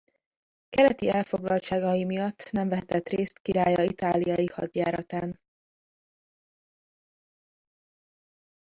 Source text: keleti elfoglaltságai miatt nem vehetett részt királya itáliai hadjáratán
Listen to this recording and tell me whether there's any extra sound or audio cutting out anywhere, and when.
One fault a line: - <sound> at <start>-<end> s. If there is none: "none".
none